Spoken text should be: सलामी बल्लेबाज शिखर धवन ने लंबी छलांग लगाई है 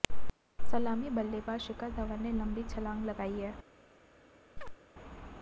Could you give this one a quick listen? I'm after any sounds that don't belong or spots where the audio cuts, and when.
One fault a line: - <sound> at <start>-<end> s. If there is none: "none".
- chirp at 4.6-4.8 s